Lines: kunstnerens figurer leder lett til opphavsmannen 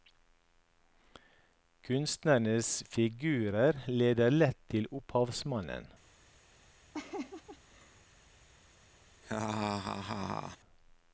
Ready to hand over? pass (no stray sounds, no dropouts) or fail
fail